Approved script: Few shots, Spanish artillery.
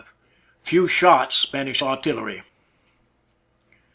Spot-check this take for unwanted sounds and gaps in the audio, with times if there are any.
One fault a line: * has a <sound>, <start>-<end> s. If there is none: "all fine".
all fine